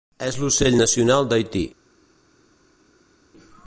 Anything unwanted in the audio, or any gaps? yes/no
no